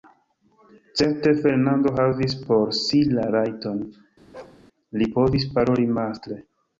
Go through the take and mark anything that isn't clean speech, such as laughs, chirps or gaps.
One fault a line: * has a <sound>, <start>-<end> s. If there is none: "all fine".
* has a bark, 4.3-4.6 s